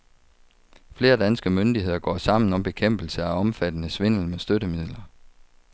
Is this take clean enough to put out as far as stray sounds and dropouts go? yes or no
yes